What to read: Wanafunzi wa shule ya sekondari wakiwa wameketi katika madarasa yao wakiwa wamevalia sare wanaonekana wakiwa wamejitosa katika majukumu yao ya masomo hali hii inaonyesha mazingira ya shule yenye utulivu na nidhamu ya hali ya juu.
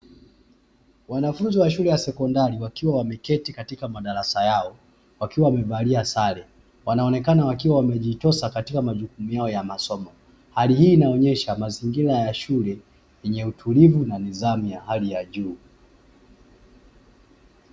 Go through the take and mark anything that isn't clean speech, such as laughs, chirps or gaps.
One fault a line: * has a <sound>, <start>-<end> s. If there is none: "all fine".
all fine